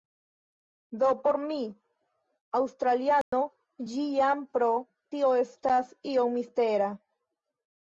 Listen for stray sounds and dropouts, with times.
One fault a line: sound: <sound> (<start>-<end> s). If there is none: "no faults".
sound: dropout (3.2-3.3 s)